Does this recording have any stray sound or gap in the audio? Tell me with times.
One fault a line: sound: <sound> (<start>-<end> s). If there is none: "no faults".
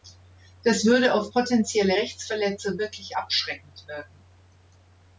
no faults